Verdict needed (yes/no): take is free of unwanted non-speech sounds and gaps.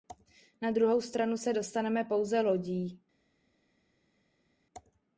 yes